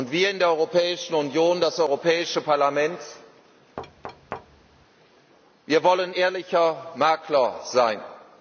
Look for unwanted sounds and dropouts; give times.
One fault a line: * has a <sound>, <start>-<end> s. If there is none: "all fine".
* has a thud, 3.8-4.9 s